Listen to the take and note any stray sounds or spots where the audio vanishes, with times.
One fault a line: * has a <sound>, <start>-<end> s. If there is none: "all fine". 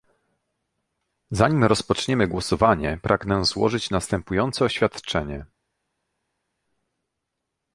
all fine